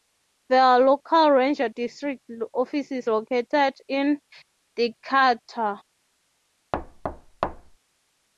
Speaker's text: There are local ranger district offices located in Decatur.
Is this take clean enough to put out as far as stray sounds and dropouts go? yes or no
no